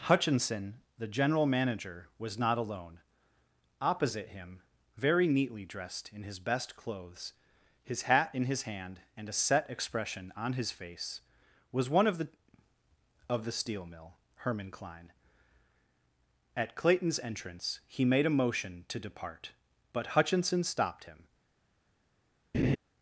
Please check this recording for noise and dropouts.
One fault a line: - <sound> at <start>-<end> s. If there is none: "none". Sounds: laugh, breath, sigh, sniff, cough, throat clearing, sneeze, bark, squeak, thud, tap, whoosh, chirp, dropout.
- laugh at 22.5-22.8 s